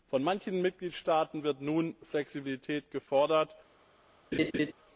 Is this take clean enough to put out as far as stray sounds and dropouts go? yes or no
no